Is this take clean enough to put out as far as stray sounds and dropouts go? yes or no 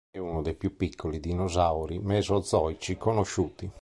yes